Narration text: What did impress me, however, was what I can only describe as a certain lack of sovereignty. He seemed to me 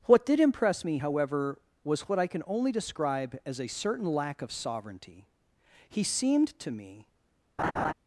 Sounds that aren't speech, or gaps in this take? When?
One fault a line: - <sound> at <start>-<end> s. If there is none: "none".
- laugh at 7.6-7.9 s